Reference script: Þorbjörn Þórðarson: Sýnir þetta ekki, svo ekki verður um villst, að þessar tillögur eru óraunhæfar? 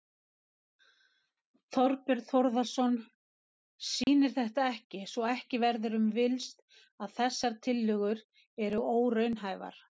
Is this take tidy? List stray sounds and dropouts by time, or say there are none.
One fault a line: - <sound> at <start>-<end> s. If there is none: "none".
- dropout at 4.0-4.1 s